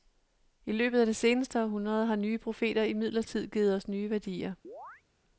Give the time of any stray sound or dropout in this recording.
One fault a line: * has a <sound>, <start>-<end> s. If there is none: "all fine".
* has a chirp, 4.6-5.0 s